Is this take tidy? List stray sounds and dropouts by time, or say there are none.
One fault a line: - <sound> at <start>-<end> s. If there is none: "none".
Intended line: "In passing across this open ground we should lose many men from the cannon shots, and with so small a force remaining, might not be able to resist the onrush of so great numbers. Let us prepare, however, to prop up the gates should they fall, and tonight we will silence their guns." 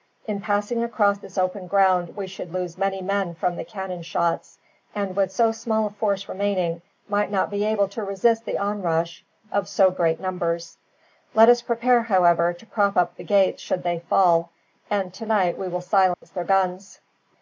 - dropout at 16.1-16.2 s